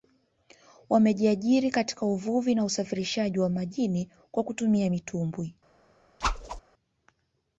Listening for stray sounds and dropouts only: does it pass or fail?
fail